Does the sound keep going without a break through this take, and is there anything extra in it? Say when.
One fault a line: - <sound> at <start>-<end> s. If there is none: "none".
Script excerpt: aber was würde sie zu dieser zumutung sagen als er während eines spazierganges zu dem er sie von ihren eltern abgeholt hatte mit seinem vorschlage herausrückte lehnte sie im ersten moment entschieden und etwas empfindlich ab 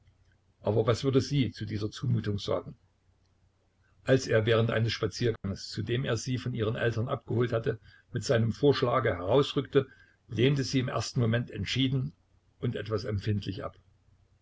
- dropout at 5.4-5.4 s